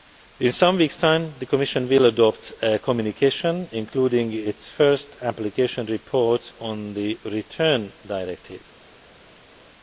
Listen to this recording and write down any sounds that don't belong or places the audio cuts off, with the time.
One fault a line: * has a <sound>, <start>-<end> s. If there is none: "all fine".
all fine